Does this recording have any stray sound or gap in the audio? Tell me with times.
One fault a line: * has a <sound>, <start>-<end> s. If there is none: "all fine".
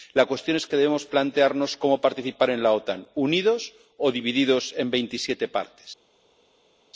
all fine